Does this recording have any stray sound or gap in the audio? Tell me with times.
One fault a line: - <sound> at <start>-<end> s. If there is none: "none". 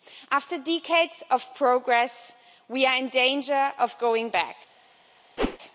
- whoosh at 5.4-5.6 s